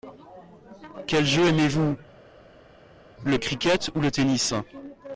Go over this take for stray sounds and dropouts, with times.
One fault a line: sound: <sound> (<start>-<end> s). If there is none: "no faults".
no faults